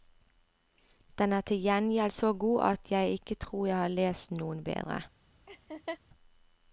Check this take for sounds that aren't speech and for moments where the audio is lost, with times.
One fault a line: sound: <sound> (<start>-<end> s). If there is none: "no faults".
sound: laugh (5.5-6.0 s)